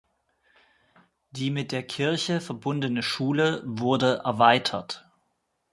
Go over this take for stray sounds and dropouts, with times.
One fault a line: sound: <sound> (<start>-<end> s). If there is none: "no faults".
no faults